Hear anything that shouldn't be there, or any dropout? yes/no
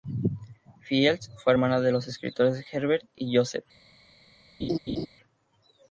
yes